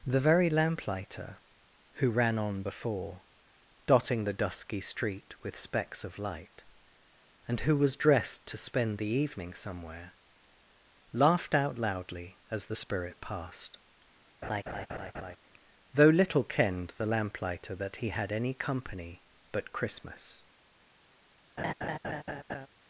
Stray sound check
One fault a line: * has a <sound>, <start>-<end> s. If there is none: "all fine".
* has a laugh, 14.4-15.4 s
* has a laugh, 21.6-22.7 s